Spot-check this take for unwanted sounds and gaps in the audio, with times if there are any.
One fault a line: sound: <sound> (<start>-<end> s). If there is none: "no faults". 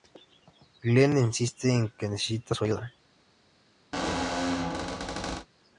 sound: squeak (3.9-5.5 s)